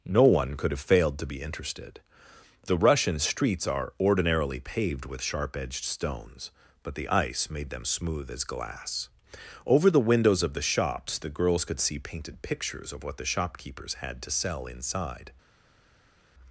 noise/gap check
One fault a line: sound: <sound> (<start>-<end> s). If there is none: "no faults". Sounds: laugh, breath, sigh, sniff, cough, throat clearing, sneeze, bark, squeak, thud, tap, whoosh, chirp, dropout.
no faults